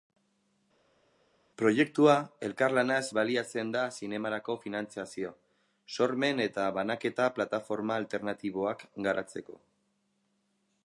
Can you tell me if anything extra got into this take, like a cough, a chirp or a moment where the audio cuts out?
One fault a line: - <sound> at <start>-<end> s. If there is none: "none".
none